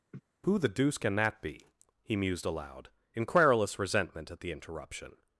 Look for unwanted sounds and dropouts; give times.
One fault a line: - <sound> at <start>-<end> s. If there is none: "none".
- laugh at 0.1-0.2 s